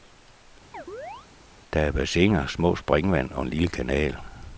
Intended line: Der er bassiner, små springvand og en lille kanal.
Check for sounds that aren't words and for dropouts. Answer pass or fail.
fail